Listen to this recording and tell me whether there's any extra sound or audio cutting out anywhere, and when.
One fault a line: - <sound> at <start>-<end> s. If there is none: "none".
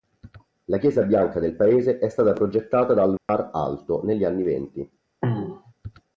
- dropout at 3.2-3.3 s
- throat clearing at 5.2-5.7 s